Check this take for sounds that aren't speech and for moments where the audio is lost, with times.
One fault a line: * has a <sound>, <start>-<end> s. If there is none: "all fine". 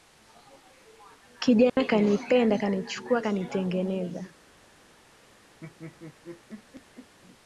* has a dropout, 1.7-1.8 s
* has a laugh, 5.6-7.1 s